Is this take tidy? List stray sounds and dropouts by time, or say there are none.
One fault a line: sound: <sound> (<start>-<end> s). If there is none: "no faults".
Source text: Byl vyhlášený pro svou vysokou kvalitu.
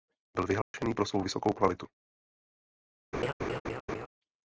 sound: dropout (0.6-0.7 s)
sound: laugh (3.1-4.1 s)